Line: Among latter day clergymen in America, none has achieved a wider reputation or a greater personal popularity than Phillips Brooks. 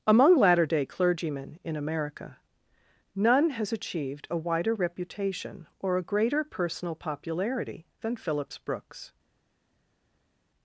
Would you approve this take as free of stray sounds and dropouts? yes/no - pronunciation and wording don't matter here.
yes